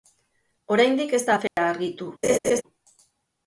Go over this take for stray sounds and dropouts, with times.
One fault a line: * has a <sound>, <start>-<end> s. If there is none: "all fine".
* has a dropout, 1.5-1.6 s
* has a laugh, 2.2-2.6 s